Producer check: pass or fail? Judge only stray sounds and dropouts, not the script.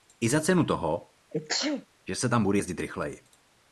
fail